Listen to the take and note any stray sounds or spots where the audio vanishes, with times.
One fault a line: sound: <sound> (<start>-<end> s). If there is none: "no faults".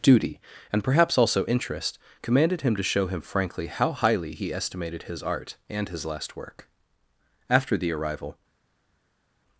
no faults